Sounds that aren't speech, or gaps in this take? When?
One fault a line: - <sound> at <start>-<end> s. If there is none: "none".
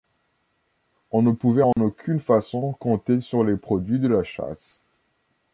- dropout at 1.7-1.8 s